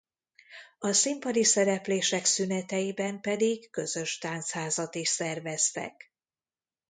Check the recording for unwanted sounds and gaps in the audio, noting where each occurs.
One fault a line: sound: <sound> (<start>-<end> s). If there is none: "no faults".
no faults